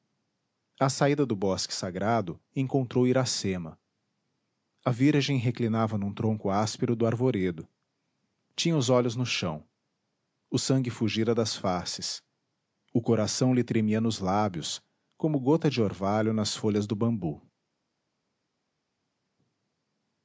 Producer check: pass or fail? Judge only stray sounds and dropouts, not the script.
pass